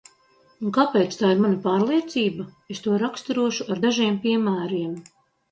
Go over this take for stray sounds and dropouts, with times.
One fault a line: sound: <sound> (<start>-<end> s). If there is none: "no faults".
no faults